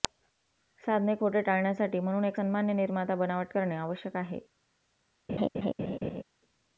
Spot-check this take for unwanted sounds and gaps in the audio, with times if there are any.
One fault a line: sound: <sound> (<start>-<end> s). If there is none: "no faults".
sound: laugh (5.3-6.2 s)